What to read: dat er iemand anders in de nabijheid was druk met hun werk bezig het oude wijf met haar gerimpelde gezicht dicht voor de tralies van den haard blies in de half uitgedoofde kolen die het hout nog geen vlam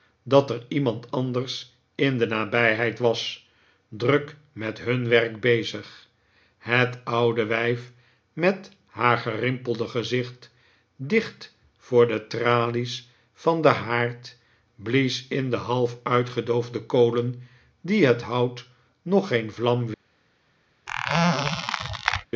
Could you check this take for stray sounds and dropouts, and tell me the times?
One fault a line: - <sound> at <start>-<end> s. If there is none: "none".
- squeak at 20.9-22.3 s